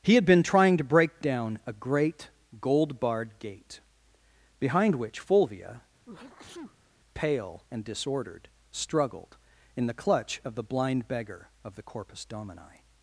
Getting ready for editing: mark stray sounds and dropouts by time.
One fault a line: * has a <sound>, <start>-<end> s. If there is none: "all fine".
* has a sneeze, 6.1-7.0 s